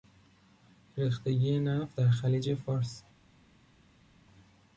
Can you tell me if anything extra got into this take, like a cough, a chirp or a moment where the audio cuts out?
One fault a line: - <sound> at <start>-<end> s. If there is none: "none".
none